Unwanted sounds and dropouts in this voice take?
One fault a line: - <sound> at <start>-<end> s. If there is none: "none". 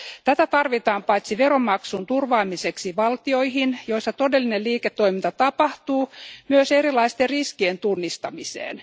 none